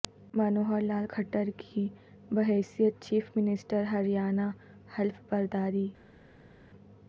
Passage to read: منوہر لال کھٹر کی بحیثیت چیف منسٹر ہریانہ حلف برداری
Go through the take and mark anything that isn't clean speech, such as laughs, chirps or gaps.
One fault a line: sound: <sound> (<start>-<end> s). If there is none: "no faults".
no faults